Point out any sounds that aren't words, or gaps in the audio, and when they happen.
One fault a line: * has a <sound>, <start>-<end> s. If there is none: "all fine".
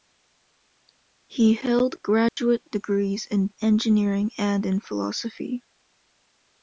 * has a dropout, 2.3-2.4 s